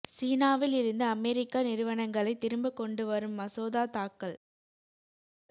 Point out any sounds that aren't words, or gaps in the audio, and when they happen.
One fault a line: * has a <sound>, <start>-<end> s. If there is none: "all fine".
all fine